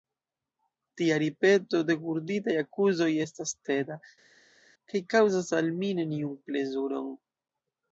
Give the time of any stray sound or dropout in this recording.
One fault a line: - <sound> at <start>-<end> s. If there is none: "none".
none